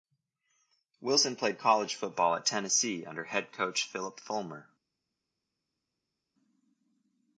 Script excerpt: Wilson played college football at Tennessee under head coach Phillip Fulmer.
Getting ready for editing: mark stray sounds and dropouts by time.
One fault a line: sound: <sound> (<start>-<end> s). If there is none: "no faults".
no faults